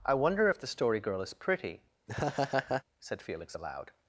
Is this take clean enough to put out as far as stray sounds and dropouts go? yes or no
no